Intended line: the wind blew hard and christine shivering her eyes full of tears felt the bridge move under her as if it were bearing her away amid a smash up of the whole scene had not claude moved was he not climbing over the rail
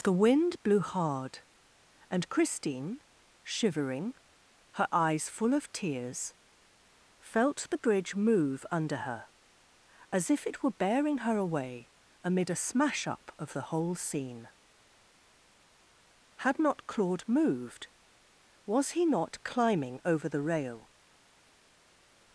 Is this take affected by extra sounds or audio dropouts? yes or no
no